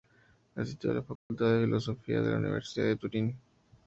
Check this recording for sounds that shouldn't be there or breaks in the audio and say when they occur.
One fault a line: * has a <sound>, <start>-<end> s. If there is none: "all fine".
* has a dropout, 1.2-1.3 s